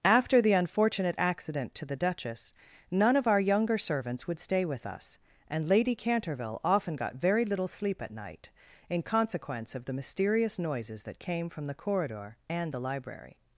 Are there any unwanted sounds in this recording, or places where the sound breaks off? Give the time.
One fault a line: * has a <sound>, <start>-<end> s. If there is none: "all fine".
all fine